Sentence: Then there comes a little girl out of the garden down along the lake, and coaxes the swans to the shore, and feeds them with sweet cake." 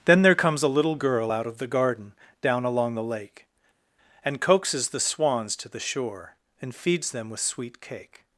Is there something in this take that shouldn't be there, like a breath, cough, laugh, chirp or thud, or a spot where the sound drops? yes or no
no